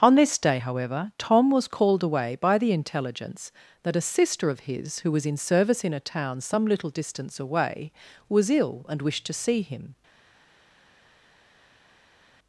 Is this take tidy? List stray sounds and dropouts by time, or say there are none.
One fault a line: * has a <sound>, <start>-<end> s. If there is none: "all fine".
all fine